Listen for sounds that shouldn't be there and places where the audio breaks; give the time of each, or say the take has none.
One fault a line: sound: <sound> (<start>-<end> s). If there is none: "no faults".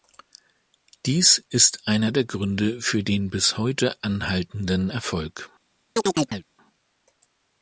sound: chirp (6.0-6.4 s)